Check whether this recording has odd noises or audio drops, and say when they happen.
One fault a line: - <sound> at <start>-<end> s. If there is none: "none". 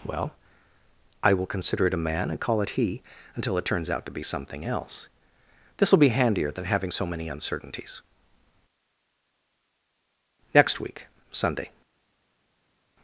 none